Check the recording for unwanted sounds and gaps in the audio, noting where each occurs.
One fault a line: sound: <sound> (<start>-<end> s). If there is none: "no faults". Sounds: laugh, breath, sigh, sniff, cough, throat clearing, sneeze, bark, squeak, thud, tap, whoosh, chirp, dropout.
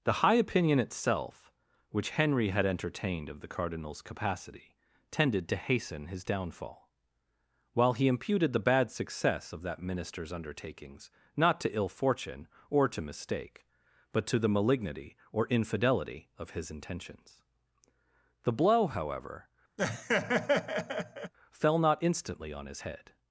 sound: laugh (19.8-21.3 s)